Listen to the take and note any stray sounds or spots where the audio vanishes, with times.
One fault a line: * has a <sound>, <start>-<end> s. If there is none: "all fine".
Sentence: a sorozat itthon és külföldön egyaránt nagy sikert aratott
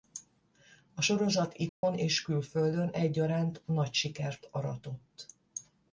* has a dropout, 1.7-1.8 s